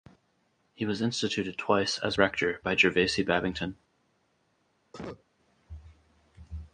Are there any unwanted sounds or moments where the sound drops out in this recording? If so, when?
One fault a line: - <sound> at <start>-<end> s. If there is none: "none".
- cough at 4.9-5.2 s